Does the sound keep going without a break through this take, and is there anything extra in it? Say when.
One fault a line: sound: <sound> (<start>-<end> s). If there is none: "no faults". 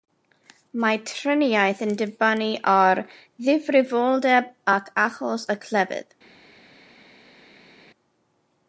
no faults